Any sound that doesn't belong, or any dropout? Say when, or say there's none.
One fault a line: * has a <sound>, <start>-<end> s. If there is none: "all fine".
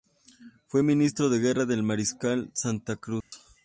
* has a dropout, 3.2-3.3 s